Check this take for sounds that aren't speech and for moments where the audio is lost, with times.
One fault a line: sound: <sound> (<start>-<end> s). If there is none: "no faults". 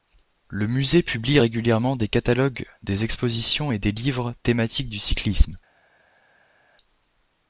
no faults